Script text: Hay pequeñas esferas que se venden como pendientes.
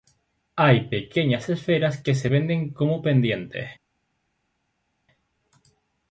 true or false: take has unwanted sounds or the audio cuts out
false